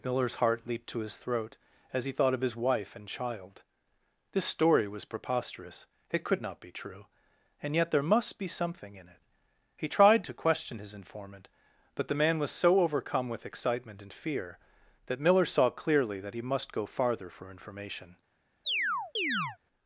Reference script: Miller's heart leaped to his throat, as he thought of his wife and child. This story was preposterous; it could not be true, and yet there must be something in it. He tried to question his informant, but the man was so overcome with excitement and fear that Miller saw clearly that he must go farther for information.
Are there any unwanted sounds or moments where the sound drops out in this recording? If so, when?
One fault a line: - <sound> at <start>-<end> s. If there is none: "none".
- chirp at 18.7-19.6 s